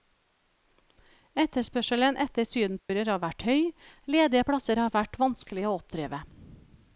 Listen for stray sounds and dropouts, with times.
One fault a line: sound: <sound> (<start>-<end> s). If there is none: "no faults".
sound: dropout (2.8-2.9 s)